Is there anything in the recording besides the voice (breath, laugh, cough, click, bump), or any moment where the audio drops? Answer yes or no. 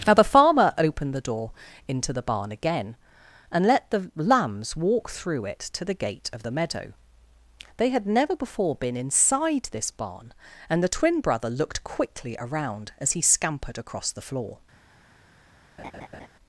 yes